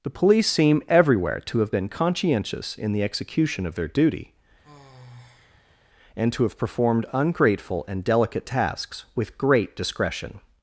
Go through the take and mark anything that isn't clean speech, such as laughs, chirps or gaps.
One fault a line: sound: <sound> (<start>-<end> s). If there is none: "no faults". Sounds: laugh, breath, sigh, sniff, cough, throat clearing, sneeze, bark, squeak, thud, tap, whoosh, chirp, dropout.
sound: sigh (4.6-5.8 s)